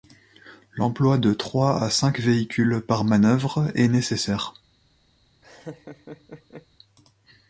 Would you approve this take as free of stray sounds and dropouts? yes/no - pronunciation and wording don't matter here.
no